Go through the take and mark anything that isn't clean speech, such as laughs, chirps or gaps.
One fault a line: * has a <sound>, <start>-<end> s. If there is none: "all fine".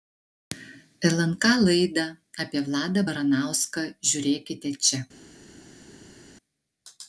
all fine